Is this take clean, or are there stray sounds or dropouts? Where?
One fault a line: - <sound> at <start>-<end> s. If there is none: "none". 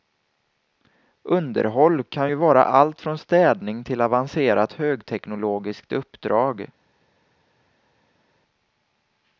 none